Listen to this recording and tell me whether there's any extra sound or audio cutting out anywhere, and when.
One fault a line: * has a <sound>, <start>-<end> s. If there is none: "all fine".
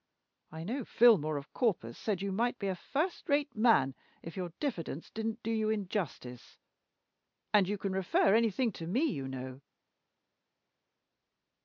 all fine